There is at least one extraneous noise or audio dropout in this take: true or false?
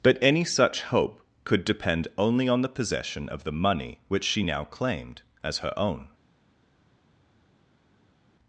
false